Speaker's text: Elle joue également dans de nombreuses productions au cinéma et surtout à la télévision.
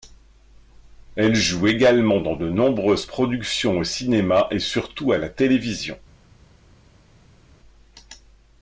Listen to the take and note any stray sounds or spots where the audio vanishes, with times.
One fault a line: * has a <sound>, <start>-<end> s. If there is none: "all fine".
all fine